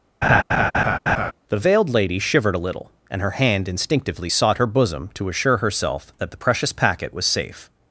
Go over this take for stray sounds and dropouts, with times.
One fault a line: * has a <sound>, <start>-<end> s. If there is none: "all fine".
* has a laugh, 0.2-1.3 s